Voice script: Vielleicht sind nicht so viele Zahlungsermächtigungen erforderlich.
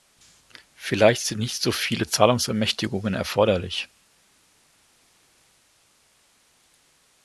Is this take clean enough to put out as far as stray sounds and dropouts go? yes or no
yes